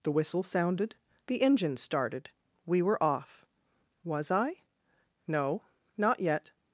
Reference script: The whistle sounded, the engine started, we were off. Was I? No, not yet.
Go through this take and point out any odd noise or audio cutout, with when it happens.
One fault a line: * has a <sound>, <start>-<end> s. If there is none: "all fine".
all fine